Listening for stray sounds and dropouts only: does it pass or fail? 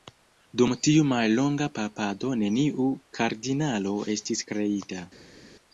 pass